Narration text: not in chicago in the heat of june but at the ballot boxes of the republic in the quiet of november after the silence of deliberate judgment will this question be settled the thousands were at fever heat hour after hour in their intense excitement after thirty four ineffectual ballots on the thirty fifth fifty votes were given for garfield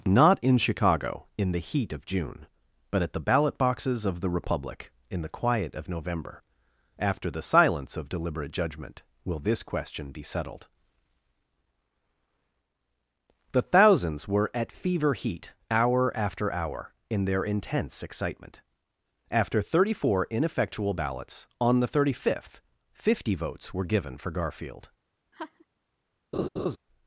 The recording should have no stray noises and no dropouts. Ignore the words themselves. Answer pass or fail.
fail